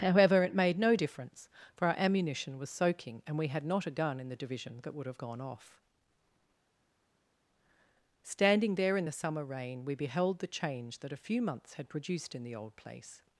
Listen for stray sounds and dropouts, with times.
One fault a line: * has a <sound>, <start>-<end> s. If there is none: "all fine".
all fine